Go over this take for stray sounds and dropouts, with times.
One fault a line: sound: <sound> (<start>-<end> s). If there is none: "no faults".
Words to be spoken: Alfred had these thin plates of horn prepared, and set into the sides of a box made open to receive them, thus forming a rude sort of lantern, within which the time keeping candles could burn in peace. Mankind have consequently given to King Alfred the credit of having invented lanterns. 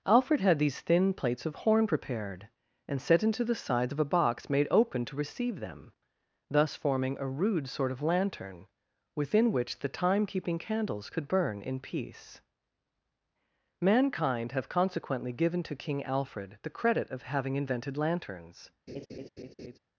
sound: laugh (18.9-19.8 s)